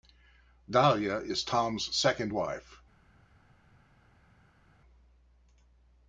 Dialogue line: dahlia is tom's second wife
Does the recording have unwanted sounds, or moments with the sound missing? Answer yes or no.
no